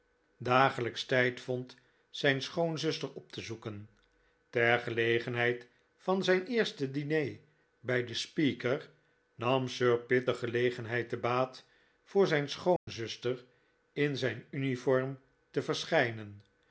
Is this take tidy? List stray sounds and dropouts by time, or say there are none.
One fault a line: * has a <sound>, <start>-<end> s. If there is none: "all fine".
* has a dropout, 12.8-12.9 s